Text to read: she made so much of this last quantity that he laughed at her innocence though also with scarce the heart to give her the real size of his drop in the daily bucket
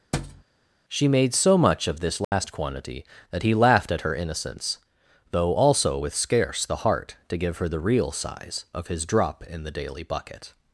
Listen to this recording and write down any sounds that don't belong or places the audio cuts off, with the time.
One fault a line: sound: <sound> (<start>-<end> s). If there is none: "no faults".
sound: thud (0.1-0.4 s)
sound: dropout (2.2-2.3 s)